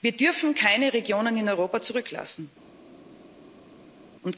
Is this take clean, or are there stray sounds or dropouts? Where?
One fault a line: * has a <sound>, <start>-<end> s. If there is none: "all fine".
all fine